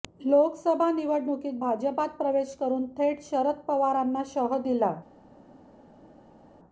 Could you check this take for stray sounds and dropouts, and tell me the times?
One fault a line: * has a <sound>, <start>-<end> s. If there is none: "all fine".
all fine